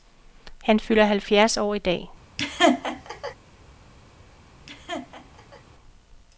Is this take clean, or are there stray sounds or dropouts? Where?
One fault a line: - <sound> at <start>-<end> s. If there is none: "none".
- laugh at 2.4-3.3 s
- laugh at 4.7-5.6 s